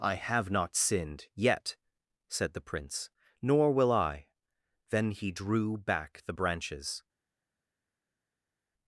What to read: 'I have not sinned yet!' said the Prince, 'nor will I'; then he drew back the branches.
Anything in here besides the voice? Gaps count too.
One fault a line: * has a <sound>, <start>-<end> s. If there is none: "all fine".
all fine